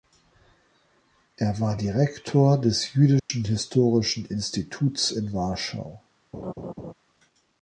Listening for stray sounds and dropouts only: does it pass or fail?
fail